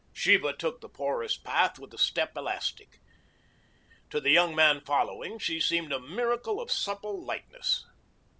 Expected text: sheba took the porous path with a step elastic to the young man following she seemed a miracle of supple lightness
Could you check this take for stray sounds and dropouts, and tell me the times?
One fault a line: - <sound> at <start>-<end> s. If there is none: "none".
none